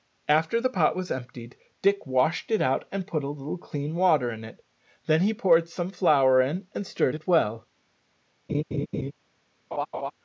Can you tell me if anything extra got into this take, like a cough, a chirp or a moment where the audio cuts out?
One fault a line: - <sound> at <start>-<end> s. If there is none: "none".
- laugh at 8.5-9.1 s
- laugh at 9.7-10.1 s